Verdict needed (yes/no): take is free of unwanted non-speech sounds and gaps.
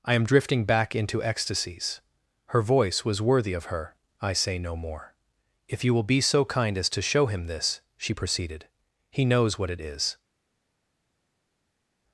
yes